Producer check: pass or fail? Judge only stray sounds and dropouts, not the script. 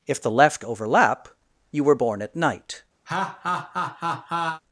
fail